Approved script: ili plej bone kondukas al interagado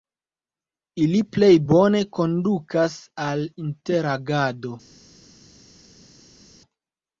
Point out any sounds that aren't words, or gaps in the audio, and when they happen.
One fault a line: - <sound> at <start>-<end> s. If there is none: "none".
none